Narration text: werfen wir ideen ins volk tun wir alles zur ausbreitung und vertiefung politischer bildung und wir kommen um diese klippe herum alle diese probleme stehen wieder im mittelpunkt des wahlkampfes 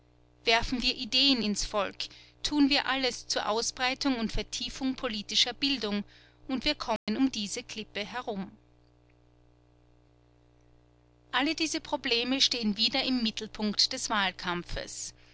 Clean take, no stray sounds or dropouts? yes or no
no